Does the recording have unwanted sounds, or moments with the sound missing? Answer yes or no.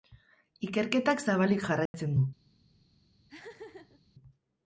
yes